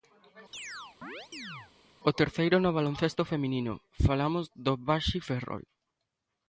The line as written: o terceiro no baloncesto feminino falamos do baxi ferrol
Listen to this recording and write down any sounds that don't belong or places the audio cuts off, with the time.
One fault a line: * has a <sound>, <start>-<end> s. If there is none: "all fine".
* has a chirp, 0.5-1.7 s